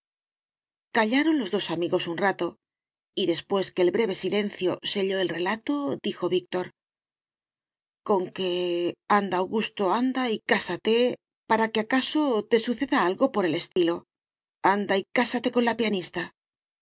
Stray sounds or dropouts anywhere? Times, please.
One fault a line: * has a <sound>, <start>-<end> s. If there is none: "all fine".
* has a dropout, 13.7-13.8 s